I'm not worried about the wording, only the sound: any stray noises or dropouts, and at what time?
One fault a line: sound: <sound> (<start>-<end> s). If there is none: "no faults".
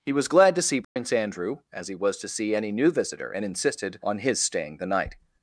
sound: dropout (0.8-1.0 s)